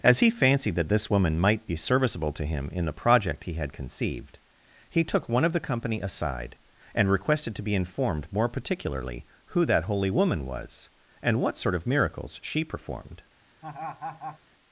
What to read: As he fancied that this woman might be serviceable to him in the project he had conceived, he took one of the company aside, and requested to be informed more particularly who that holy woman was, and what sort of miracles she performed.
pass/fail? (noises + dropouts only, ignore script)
fail